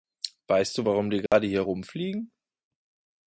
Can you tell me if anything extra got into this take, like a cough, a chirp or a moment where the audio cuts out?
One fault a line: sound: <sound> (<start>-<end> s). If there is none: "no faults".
sound: dropout (1.3-1.3 s)